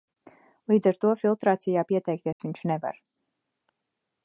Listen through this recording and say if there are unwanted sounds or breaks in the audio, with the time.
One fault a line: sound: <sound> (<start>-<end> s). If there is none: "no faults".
sound: dropout (2.3-2.4 s)